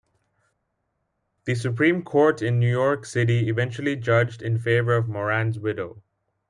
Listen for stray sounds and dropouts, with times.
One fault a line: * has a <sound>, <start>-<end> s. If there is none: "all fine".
all fine